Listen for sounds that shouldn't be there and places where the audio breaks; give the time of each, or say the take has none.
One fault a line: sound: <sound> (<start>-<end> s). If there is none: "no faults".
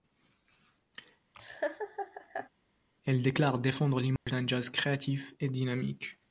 sound: laugh (1.3-2.5 s)
sound: dropout (4.2-4.3 s)